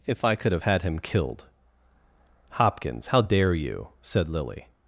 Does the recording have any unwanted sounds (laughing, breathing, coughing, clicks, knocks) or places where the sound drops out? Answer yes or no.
no